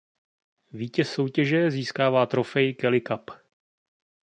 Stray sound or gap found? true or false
false